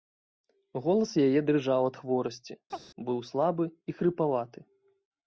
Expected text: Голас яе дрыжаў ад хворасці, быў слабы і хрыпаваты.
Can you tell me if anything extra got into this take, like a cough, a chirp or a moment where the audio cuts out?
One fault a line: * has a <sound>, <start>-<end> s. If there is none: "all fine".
* has a chirp, 2.7-2.8 s